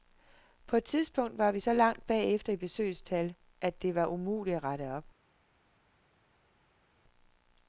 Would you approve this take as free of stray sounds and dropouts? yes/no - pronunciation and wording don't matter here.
yes